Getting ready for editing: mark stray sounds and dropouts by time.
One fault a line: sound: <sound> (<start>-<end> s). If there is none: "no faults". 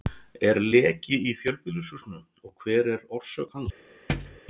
sound: thud (4.1-4.4 s)